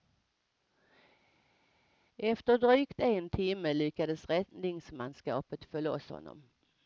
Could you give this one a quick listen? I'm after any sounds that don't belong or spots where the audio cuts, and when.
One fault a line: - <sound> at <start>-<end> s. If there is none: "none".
none